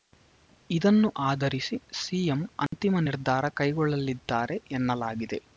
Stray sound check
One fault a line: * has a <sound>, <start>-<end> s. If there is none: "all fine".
* has a dropout, 2.7-2.7 s